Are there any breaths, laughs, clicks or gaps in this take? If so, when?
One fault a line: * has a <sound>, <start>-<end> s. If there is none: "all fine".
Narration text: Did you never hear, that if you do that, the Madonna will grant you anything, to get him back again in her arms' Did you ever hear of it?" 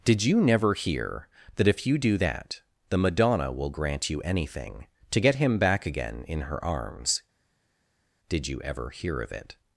all fine